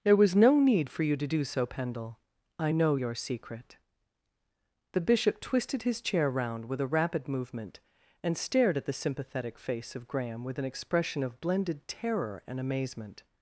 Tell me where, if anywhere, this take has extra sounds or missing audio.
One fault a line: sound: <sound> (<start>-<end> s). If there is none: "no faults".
no faults